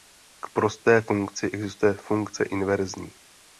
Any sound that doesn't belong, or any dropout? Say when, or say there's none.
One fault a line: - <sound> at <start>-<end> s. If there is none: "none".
none